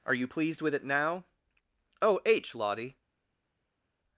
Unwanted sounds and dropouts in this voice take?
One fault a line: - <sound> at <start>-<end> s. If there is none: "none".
none